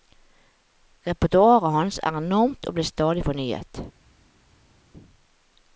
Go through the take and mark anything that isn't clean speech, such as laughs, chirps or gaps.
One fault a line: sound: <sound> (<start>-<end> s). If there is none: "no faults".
no faults